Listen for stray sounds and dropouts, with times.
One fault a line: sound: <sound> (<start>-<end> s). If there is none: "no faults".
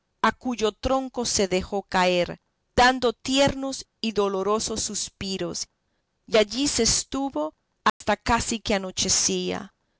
sound: dropout (7.9-8.0 s)